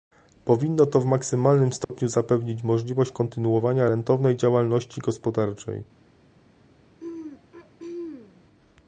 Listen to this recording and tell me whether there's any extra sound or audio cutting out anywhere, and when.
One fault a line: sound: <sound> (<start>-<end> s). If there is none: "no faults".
sound: dropout (1.8-1.9 s)
sound: throat clearing (7.0-8.4 s)